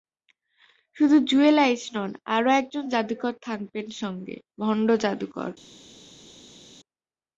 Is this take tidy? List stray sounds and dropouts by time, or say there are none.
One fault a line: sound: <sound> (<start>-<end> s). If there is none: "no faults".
no faults